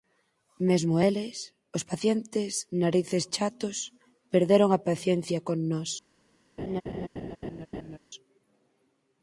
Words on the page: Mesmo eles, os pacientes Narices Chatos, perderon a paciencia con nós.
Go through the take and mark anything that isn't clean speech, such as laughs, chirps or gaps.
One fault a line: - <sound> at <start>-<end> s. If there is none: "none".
- laugh at 6.6-8.0 s